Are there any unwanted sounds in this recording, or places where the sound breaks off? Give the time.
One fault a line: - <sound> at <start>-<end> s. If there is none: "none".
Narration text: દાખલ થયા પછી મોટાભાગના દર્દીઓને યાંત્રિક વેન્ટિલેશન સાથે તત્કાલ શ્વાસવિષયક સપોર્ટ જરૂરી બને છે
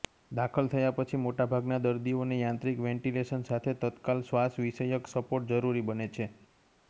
none